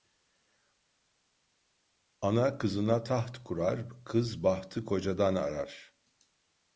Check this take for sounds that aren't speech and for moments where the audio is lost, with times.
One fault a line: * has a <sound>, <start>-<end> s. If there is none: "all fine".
all fine